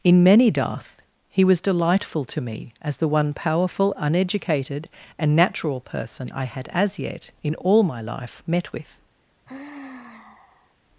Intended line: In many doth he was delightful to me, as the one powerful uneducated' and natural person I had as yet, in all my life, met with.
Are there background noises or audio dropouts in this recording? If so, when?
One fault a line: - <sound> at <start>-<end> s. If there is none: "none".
- sigh at 9.5-10.8 s